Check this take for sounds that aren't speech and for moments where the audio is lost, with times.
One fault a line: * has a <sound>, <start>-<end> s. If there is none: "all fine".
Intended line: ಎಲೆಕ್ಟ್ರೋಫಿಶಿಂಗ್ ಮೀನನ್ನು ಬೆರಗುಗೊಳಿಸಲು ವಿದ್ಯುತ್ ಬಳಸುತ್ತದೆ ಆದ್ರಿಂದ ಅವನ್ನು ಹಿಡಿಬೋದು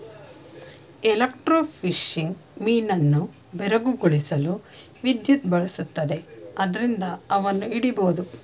all fine